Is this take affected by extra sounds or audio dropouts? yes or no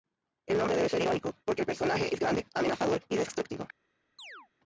yes